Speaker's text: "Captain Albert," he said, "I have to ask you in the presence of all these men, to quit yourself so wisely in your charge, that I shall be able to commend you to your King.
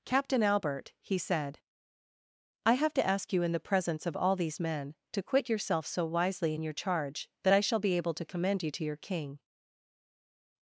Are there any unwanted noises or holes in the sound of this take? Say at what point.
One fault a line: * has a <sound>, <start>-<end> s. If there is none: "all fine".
all fine